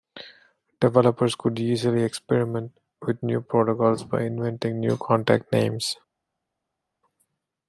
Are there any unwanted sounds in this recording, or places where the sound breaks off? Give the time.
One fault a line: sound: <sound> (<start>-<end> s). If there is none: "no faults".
no faults